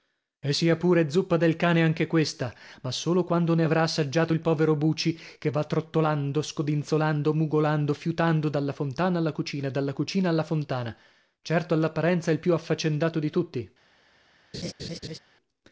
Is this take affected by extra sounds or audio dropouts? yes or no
yes